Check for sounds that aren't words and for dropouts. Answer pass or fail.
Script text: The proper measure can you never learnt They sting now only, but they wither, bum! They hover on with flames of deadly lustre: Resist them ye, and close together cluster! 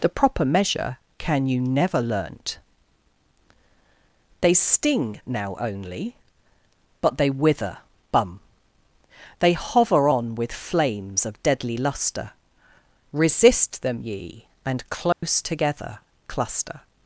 fail